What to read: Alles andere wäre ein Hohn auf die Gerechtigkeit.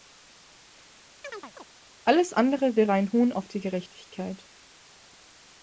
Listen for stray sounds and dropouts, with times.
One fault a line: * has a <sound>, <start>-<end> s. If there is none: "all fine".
* has a chirp, 1.2-1.6 s